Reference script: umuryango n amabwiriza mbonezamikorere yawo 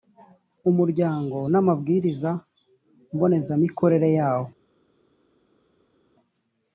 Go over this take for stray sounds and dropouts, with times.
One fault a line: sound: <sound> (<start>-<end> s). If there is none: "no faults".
no faults